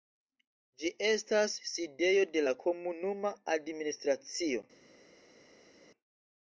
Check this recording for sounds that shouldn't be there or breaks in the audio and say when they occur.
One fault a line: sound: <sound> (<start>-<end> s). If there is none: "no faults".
no faults